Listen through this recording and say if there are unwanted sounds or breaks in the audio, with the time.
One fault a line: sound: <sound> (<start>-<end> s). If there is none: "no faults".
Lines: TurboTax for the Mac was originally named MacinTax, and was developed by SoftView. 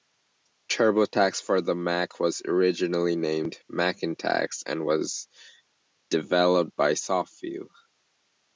no faults